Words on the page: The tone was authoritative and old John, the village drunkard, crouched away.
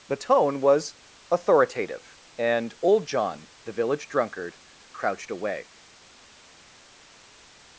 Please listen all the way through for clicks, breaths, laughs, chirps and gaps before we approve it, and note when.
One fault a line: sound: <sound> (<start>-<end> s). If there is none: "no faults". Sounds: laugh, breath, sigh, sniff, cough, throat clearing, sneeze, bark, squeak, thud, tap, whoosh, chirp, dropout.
no faults